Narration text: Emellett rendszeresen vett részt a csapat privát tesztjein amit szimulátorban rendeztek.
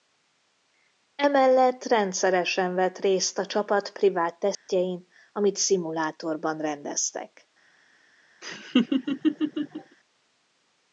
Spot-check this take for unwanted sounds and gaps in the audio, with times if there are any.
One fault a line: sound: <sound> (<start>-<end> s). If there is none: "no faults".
sound: dropout (4.5-4.7 s)
sound: laugh (8.4-10.0 s)